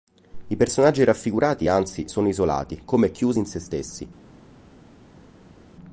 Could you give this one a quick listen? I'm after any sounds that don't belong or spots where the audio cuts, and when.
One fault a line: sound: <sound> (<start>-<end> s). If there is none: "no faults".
no faults